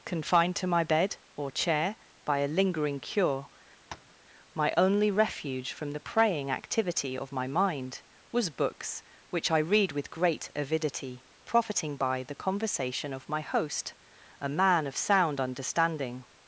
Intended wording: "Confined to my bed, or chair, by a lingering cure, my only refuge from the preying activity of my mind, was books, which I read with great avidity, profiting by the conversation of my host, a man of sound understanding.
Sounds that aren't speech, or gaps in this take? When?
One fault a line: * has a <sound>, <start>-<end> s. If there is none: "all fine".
* has a tap, 3.9-4.2 s